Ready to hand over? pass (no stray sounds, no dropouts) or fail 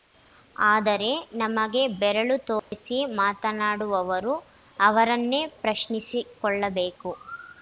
fail